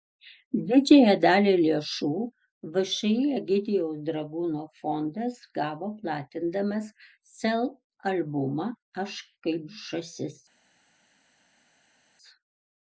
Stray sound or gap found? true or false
false